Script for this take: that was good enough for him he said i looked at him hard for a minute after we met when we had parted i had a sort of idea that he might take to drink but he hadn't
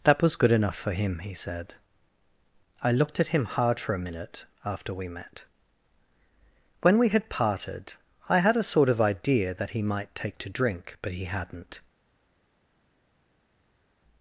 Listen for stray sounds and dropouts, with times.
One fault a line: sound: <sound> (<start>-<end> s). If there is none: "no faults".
no faults